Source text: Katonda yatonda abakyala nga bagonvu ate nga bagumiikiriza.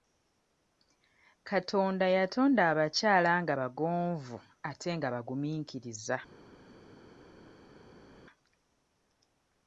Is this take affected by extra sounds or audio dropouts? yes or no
no